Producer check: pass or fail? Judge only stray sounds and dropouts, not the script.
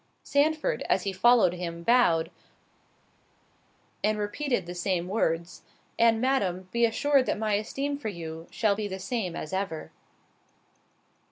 pass